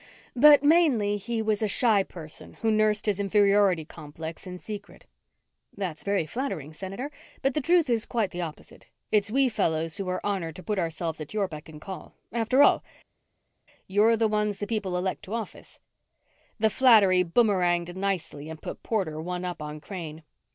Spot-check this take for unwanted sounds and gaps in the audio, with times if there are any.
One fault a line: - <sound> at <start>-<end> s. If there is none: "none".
none